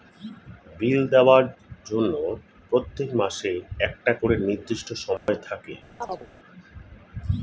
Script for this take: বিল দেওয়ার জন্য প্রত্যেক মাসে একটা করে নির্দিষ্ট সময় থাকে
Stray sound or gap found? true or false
true